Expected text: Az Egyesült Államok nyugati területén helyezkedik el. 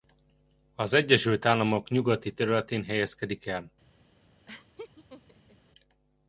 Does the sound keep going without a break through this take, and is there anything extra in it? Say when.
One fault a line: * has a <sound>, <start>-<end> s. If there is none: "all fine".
* has a laugh, 4.5-5.6 s